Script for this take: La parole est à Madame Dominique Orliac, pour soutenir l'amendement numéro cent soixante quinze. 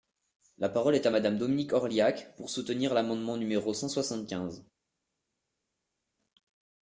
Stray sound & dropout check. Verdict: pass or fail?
pass